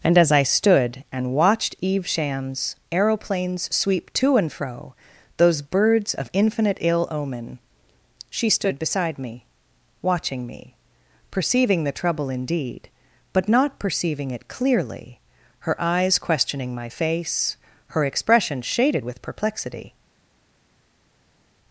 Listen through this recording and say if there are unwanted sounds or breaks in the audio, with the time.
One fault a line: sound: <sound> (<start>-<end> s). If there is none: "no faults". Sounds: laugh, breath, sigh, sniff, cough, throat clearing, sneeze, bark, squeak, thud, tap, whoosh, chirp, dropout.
no faults